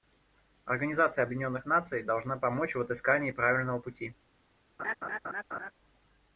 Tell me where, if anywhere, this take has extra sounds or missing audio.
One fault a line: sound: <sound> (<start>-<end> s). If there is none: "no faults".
sound: laugh (4.8-5.7 s)